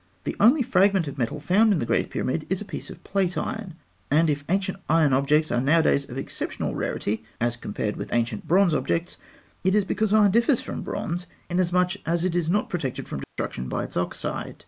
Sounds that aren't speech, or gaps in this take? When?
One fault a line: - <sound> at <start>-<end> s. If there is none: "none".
- dropout at 13.2-13.4 s